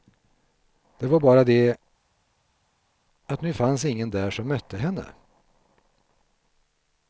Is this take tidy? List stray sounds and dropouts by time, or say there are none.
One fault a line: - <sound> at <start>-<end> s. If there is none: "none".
none